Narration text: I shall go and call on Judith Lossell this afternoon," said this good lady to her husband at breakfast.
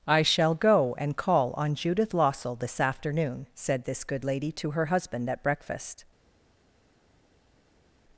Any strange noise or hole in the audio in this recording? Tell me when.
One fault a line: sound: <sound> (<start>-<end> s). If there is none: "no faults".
no faults